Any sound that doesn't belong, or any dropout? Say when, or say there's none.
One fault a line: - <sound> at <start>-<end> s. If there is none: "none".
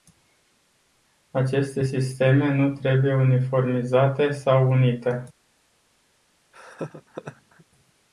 - laugh at 6.5-7.7 s